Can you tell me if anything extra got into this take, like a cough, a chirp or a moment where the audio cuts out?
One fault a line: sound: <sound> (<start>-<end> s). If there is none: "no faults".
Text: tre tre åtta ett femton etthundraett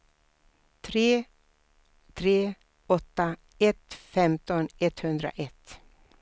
no faults